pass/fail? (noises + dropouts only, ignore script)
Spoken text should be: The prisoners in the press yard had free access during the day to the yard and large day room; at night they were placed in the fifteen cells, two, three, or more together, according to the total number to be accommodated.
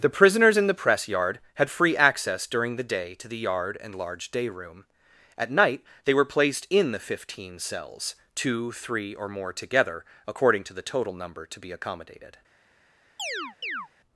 fail